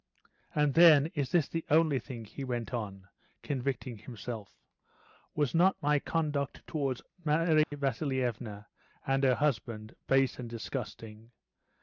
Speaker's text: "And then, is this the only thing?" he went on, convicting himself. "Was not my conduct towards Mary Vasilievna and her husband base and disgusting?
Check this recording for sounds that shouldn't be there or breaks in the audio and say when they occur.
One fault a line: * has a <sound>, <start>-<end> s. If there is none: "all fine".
* has a dropout, 7.6-7.7 s